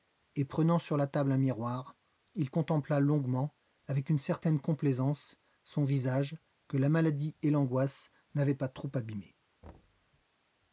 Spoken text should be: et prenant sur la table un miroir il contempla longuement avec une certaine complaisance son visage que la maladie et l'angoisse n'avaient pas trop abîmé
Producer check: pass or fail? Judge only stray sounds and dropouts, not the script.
fail